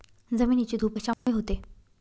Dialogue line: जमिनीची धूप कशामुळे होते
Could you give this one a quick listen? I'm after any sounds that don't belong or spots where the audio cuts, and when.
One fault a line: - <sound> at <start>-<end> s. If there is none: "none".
- dropout at 1.1-1.3 s